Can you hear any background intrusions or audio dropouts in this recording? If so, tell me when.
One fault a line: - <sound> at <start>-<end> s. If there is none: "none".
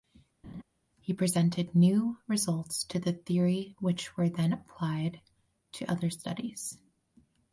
- laugh at 0.4-0.6 s